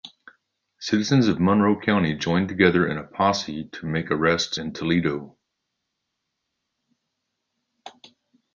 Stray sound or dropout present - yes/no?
no